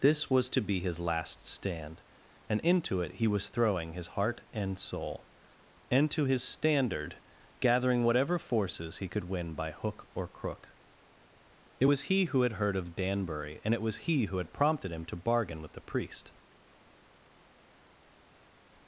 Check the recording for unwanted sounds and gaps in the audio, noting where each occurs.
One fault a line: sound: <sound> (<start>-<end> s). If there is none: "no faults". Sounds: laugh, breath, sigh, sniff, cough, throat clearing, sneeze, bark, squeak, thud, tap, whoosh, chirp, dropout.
no faults